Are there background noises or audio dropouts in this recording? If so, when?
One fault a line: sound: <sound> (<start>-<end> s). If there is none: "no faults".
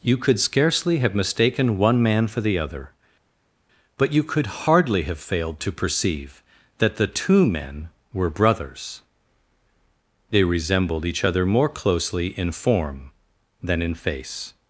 no faults